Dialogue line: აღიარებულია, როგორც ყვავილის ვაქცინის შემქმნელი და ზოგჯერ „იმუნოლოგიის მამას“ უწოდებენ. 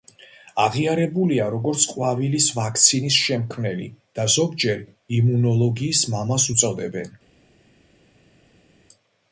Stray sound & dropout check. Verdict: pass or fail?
pass